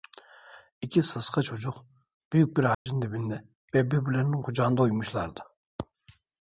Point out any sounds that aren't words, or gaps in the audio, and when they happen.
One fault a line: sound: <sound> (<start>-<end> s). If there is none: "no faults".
sound: dropout (2.7-2.9 s)